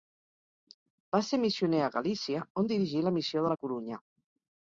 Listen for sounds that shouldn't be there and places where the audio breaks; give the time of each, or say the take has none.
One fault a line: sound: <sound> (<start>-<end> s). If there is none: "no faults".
no faults